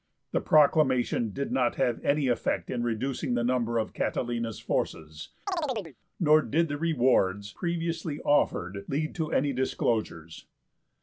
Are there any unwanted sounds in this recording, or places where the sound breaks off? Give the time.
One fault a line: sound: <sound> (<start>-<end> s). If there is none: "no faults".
sound: chirp (5.5-6.0 s)